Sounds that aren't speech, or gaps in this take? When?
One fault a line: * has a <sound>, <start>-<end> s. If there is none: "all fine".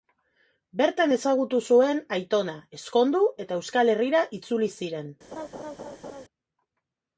* has a laugh, 5.3-6.2 s